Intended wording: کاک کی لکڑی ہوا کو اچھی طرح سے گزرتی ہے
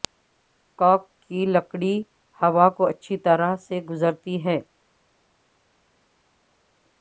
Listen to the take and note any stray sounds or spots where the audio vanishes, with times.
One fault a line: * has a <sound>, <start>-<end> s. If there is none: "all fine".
all fine